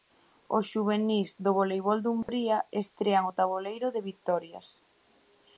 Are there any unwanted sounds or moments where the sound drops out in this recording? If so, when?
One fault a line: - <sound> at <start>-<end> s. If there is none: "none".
- dropout at 2.2-2.3 s